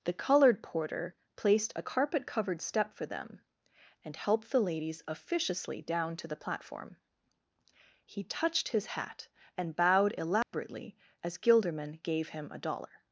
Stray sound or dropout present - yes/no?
yes